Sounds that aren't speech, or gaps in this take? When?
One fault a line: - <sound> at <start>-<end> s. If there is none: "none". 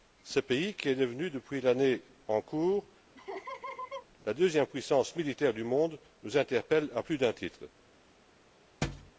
- laugh at 3.2-4.1 s
- thud at 8.8-9.1 s